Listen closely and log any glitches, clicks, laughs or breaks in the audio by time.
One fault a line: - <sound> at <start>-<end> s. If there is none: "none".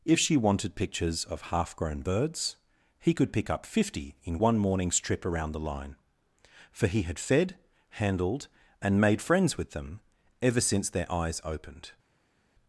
none